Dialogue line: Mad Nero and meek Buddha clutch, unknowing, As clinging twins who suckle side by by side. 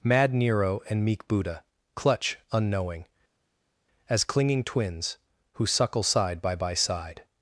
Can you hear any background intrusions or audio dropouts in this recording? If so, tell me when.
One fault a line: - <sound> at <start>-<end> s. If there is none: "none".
none